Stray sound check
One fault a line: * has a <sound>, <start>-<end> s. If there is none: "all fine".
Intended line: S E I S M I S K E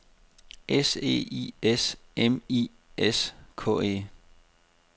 all fine